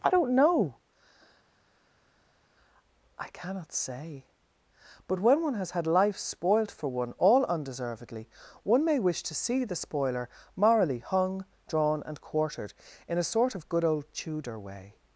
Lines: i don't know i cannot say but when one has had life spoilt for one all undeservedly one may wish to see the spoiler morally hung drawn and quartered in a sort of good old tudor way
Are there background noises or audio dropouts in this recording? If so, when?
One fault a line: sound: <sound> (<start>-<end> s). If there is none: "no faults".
no faults